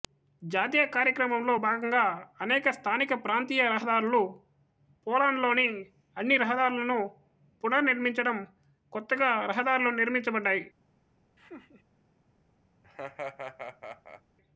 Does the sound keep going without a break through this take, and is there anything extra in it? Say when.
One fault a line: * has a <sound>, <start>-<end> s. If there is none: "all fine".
* has a laugh, 11.4-11.8 s
* has a laugh, 12.8-14.2 s